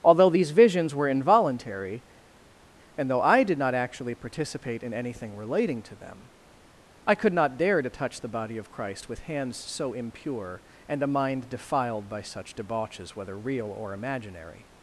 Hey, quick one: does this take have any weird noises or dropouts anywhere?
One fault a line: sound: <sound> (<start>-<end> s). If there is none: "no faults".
no faults